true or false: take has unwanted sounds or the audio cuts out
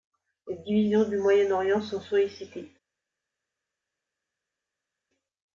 false